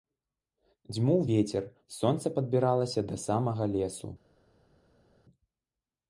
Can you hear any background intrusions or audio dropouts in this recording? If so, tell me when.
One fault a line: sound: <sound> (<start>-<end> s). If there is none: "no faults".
no faults